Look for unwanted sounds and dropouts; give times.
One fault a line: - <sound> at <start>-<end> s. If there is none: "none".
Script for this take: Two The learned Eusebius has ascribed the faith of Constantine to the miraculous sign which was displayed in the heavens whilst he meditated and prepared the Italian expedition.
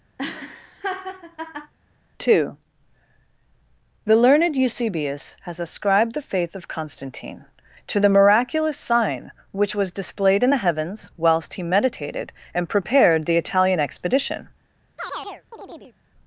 - laugh at 0.2-1.7 s
- chirp at 15.0-16.0 s